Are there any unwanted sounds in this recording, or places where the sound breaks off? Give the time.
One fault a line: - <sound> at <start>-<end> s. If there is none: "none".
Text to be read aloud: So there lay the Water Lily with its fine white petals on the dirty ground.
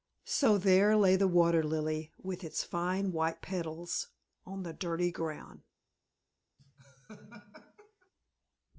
- laugh at 6.6-8.1 s